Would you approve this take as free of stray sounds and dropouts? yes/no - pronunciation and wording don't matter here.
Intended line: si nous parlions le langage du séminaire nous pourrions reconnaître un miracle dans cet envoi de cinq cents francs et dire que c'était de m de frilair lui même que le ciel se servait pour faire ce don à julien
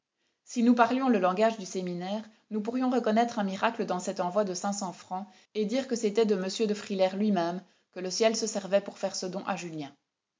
yes